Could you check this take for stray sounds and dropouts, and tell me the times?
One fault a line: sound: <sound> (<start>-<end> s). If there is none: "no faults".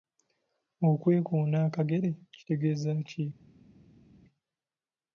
no faults